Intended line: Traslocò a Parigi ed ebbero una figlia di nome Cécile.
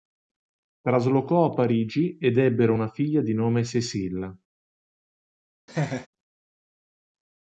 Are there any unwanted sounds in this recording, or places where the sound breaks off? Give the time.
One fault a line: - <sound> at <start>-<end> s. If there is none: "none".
- laugh at 5.7-6.1 s